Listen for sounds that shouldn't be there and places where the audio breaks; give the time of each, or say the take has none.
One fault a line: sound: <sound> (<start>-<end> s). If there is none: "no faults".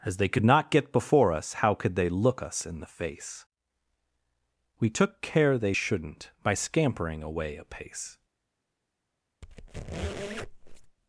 sound: squeak (9.4-11.0 s)